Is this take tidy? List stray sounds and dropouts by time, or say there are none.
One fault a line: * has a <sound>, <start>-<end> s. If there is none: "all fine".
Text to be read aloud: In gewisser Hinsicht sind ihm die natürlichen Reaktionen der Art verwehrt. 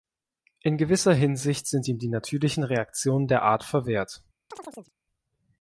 * has a chirp, 4.5-4.9 s